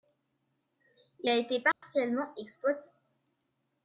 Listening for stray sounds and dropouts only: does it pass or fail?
fail